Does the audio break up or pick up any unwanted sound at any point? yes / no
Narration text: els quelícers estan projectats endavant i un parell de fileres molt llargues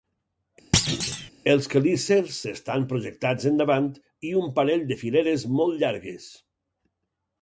yes